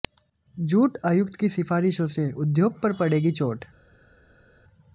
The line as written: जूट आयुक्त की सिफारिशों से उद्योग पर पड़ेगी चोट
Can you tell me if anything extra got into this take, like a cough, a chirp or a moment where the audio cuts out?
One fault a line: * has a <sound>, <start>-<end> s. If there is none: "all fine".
all fine